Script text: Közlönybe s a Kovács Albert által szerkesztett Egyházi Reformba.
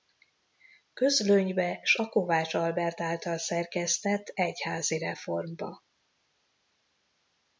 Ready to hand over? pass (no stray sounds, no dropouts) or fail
pass